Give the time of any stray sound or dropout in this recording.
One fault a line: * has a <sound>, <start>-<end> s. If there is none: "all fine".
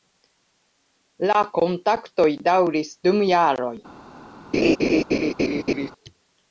* has a laugh, 4.5-5.9 s